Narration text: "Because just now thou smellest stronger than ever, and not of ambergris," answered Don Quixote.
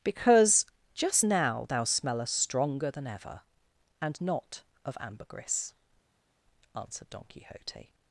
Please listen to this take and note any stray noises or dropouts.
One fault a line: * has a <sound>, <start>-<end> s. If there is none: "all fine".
all fine